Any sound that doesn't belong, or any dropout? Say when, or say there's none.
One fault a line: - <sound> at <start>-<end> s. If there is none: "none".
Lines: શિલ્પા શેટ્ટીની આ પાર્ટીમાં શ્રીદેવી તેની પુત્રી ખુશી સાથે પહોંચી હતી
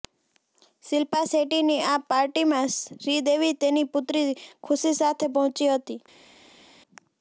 none